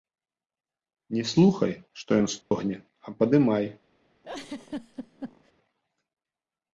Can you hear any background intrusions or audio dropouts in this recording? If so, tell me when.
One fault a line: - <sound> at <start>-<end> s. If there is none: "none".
- dropout at 2.4-2.5 s
- laugh at 4.2-5.5 s